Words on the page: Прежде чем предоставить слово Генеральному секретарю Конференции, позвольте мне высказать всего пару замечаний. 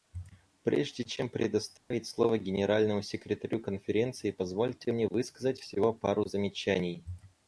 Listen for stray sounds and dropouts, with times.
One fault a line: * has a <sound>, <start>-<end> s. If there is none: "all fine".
* has a dropout, 1.8-1.9 s